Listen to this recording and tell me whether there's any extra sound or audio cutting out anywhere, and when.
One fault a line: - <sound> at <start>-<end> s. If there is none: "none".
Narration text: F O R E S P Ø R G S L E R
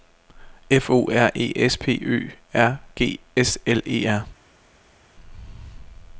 none